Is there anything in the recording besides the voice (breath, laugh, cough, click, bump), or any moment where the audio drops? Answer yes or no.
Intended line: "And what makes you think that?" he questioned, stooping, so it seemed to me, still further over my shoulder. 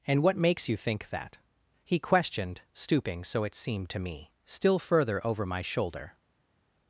no